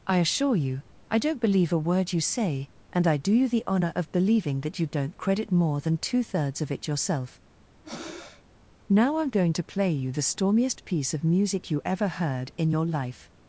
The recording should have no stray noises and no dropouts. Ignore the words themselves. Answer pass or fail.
fail